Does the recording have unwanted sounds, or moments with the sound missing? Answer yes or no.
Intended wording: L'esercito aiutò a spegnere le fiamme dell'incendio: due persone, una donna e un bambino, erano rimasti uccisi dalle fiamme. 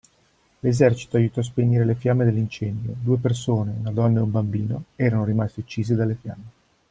no